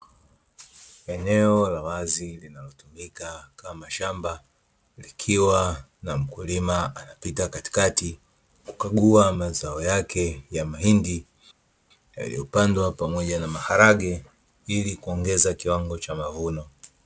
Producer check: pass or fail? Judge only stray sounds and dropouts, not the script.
pass